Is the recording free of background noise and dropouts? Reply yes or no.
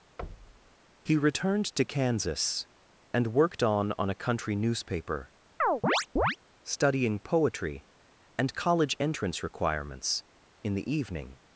no